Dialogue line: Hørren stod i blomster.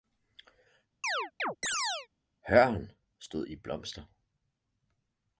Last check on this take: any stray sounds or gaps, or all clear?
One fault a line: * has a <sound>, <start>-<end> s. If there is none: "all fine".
* has a chirp, 1.0-2.1 s